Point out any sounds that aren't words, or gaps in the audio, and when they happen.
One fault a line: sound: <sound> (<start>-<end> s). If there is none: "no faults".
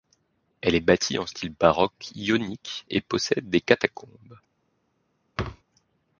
sound: thud (5.4-5.6 s)